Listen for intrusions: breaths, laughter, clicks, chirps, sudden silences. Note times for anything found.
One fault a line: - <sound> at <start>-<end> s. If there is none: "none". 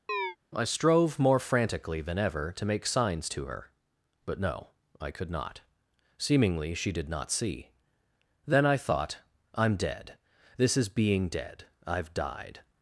- chirp at 0.1-0.4 s